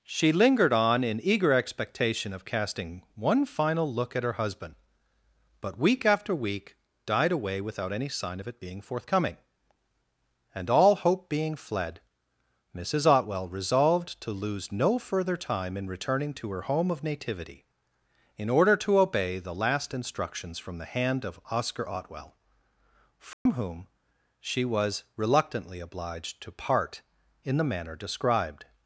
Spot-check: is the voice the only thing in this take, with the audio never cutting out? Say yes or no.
no